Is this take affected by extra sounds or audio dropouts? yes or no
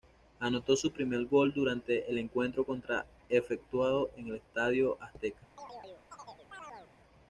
yes